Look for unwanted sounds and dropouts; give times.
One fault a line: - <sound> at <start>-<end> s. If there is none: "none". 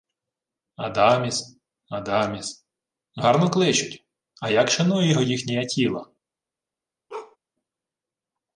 - bark at 7.1-7.4 s